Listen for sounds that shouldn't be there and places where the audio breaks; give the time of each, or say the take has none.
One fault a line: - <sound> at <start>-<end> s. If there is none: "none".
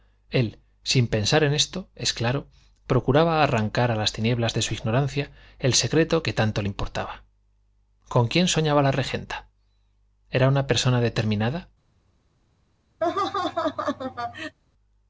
- laugh at 13.0-14.6 s